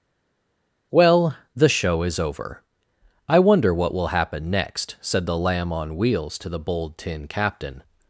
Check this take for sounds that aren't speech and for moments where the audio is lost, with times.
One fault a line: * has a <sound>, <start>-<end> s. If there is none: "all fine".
all fine